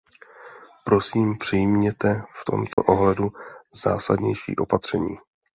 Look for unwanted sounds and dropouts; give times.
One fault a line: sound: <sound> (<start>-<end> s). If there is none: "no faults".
sound: dropout (2.7-2.8 s)